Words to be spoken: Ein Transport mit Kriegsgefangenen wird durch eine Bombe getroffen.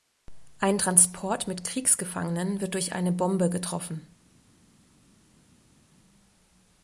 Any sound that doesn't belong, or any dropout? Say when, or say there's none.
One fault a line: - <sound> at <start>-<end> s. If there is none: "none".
none